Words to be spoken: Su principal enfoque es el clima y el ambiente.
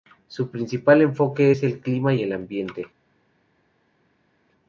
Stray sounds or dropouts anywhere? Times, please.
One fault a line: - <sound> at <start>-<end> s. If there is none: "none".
none